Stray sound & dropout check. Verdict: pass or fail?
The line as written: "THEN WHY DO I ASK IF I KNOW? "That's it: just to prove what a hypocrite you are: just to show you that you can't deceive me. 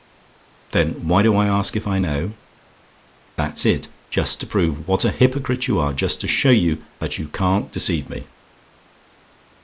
pass